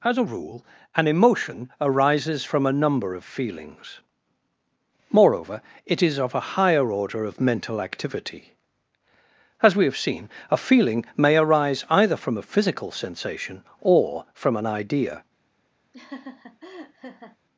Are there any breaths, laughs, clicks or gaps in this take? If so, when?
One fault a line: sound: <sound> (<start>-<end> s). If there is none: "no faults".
sound: laugh (15.9-17.4 s)